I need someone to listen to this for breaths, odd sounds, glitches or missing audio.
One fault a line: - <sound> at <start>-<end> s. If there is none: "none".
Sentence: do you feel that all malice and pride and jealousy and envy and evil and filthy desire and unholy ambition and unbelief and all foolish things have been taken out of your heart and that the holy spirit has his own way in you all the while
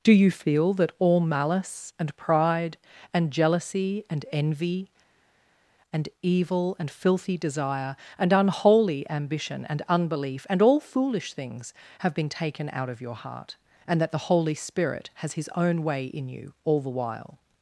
none